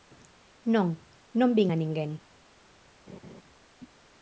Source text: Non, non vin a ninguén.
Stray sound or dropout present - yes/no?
yes